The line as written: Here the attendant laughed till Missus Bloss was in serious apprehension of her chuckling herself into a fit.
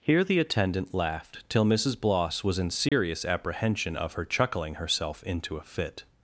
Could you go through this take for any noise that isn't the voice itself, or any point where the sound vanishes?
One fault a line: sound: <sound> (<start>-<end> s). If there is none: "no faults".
sound: dropout (2.9-2.9 s)